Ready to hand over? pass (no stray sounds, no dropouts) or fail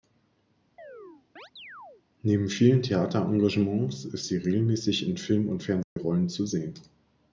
fail